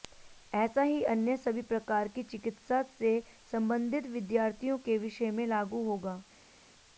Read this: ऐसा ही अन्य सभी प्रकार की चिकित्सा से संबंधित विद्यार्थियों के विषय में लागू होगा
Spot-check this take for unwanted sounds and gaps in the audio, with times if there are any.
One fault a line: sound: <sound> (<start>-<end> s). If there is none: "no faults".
no faults